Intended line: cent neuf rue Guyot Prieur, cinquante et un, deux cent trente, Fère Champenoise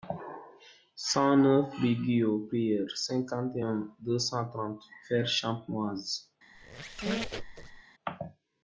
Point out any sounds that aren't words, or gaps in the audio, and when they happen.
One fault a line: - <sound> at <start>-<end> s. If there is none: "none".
- squeak at 6.5-7.8 s